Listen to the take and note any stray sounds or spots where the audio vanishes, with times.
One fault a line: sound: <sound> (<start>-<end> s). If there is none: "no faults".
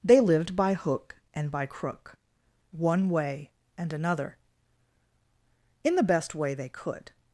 no faults